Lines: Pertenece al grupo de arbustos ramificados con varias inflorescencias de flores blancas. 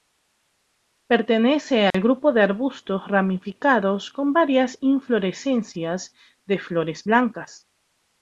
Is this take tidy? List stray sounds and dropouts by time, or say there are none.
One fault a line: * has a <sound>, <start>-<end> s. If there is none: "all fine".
* has a dropout, 1.9-1.9 s